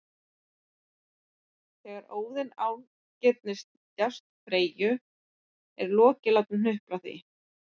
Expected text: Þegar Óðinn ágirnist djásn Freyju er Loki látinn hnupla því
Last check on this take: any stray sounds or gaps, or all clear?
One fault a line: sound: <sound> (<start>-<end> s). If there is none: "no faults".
no faults